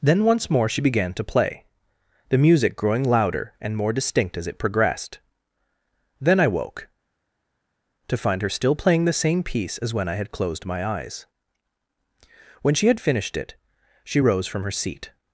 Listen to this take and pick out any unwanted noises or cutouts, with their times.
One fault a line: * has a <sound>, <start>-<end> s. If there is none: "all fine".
all fine